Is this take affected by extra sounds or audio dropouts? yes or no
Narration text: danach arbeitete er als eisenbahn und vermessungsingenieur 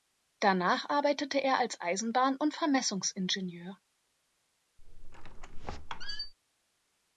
yes